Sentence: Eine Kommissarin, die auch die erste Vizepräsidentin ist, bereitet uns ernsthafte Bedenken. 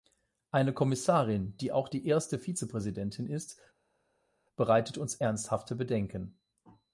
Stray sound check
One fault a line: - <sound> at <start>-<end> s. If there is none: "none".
none